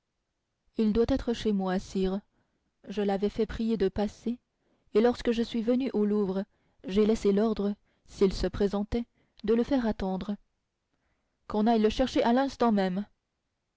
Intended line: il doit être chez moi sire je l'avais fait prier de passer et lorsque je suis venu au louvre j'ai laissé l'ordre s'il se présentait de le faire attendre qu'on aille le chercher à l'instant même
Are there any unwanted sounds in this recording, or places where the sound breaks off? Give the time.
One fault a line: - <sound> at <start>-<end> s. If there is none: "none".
none